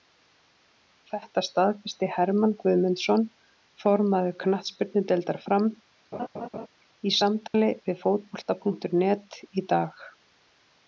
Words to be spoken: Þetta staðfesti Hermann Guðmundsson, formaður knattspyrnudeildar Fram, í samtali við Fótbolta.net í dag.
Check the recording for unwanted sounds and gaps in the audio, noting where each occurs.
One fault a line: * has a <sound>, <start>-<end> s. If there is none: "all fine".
* has a laugh, 6.1-6.7 s
* has a dropout, 7.5-7.5 s